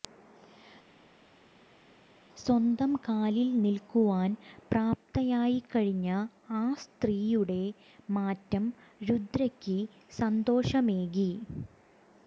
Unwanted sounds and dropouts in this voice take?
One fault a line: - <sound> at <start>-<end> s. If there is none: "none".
none